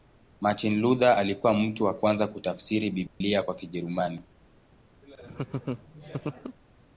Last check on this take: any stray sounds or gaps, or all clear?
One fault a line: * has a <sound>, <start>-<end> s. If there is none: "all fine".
* has a dropout, 3.1-3.2 s
* has a laugh, 5.0-6.6 s